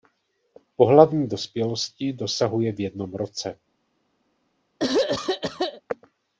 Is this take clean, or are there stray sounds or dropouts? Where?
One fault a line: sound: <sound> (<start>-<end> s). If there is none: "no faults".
sound: throat clearing (4.8-5.8 s)